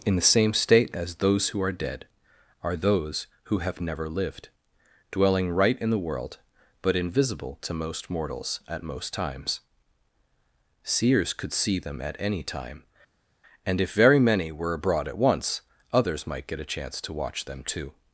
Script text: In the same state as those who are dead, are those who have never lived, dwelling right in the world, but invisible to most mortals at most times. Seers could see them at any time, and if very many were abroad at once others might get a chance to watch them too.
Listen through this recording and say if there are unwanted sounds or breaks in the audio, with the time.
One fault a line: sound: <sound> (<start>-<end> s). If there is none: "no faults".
no faults